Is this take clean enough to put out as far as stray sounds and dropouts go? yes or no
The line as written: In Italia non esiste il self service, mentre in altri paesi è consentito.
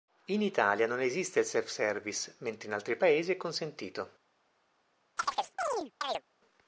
no